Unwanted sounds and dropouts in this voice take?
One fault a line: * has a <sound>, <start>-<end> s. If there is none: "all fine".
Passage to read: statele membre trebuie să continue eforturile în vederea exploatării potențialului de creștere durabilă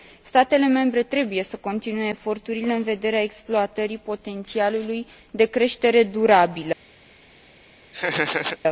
* has a laugh, 7.9-8.6 s